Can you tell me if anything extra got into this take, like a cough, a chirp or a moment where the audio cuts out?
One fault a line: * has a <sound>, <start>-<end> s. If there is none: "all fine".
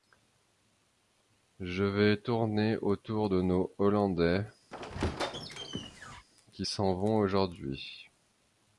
* has a squeak, 4.7-6.3 s